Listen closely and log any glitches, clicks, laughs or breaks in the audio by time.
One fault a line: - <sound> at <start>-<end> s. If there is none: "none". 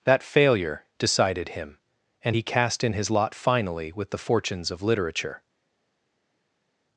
none